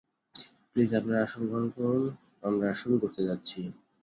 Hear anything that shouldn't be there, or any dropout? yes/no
no